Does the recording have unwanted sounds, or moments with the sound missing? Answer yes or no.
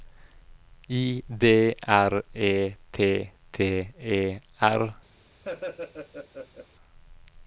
yes